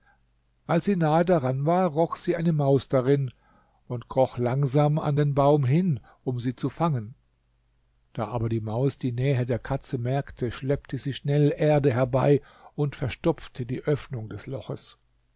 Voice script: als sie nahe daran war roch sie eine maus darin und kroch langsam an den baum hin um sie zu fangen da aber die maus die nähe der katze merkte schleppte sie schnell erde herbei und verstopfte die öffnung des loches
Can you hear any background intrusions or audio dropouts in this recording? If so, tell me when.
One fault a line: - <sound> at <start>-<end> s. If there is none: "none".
none